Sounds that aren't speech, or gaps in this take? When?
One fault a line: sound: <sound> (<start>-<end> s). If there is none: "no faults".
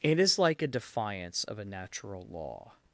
no faults